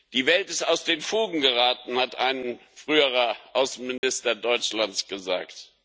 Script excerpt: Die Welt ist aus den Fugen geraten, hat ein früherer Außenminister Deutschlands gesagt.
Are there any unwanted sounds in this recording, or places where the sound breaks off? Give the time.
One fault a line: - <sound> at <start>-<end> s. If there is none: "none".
- dropout at 4.0-4.0 s